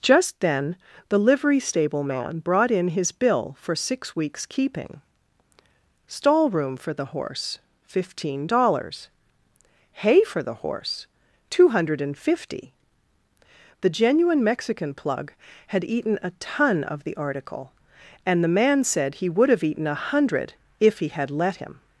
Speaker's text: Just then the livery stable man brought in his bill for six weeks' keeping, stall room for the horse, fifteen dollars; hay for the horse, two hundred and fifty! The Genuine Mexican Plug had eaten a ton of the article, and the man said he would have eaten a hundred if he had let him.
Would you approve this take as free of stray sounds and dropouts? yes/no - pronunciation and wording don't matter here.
yes